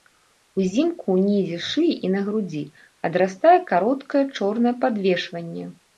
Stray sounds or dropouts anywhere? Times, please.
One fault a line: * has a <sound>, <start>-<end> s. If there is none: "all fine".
all fine